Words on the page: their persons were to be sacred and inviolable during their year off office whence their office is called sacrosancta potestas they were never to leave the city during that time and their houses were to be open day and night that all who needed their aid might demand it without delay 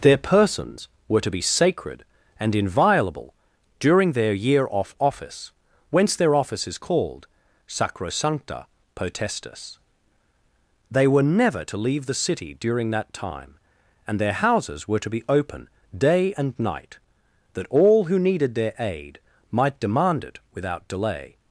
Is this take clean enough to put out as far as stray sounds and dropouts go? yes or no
yes